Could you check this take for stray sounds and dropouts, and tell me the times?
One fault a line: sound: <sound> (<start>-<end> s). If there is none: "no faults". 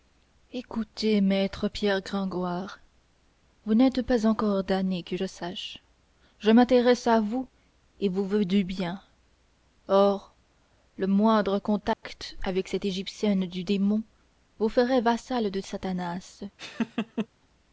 sound: dropout (11.9-12.0 s)
sound: laugh (16.6-17.3 s)